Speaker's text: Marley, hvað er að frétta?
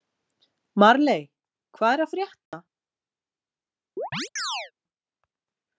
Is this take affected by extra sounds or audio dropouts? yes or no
yes